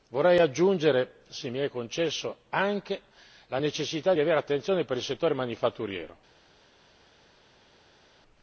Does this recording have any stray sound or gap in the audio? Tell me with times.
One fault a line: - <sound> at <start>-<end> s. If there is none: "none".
none